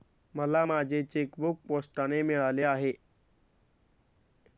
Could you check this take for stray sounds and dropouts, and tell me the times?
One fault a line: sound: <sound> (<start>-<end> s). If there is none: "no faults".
no faults